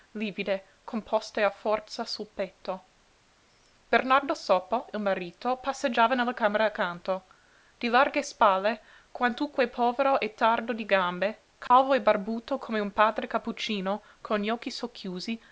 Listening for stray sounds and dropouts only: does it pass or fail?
fail